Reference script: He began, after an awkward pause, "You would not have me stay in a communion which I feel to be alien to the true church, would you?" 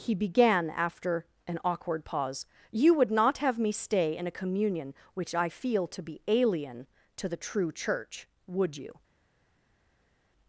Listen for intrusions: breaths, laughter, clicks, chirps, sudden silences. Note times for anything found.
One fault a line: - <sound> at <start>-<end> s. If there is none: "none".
none